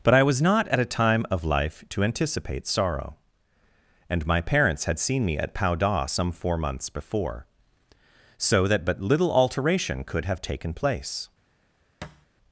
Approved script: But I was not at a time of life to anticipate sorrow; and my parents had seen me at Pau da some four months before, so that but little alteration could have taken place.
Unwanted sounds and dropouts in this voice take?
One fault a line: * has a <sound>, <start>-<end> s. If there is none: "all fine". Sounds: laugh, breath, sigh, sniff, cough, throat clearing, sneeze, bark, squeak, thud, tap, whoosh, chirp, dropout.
* has a thud, 12.0-12.3 s